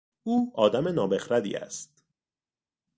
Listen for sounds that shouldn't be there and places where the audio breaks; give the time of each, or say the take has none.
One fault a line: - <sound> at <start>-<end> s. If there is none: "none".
none